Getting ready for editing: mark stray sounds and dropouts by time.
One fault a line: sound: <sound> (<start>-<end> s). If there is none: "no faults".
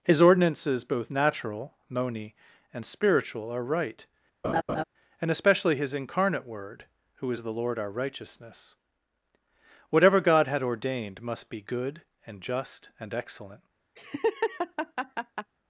sound: laugh (4.4-4.8 s)
sound: laugh (14.0-15.5 s)